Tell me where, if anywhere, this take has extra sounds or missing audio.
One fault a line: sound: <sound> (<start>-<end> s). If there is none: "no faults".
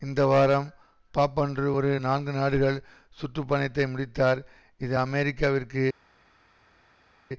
no faults